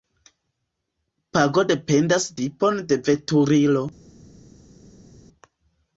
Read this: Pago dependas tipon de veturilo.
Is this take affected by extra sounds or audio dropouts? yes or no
no